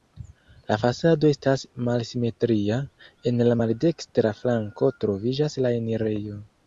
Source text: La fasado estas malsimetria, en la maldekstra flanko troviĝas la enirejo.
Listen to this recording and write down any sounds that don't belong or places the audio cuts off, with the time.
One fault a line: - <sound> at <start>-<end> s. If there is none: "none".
none